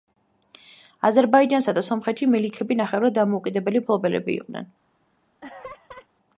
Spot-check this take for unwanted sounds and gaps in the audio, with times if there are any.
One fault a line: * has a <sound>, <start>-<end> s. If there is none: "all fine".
* has a laugh, 5.4-6.1 s